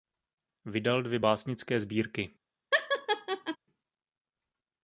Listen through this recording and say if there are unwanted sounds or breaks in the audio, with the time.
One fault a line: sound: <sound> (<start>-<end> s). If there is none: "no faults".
sound: laugh (2.7-3.6 s)